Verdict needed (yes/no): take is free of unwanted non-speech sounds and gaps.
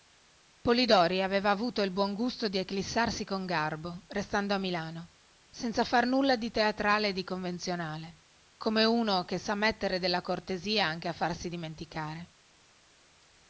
yes